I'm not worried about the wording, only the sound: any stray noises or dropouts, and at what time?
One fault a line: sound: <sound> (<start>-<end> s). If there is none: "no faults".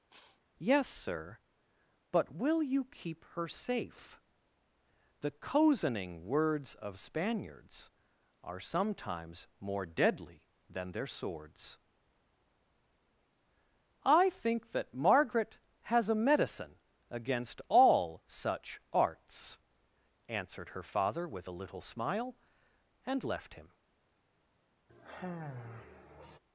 sound: sniff (0.1-0.4 s)
sound: sigh (24.9-26.4 s)